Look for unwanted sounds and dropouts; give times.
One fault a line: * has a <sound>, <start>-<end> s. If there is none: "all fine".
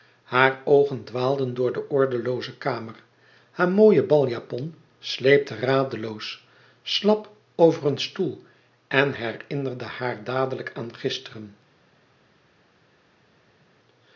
all fine